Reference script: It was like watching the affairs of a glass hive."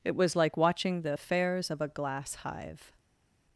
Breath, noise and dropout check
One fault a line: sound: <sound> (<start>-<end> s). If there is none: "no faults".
no faults